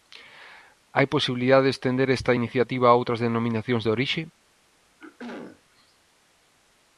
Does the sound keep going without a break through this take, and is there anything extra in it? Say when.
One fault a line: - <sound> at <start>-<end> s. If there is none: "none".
- throat clearing at 5.0-5.6 s